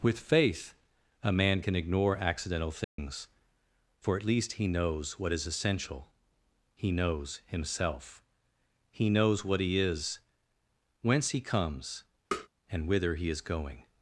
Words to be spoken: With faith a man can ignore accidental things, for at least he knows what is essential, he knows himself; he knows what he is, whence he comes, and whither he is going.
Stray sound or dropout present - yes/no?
yes